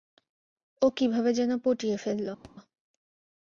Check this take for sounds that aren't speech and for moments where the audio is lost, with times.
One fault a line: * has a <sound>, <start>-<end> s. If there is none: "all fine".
* has a thud, 2.4-2.6 s